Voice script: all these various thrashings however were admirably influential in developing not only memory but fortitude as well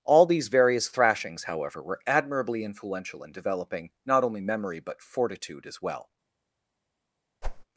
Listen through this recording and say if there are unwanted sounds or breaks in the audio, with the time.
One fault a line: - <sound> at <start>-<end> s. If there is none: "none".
- whoosh at 7.4-7.6 s